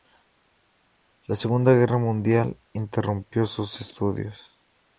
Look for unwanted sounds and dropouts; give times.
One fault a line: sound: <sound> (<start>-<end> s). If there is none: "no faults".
no faults